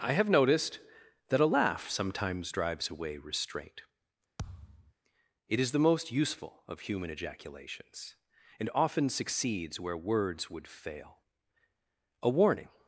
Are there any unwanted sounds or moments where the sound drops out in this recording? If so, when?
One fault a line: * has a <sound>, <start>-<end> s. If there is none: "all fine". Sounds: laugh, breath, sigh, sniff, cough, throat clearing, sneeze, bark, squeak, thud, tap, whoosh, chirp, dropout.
* has a thud, 4.4-4.9 s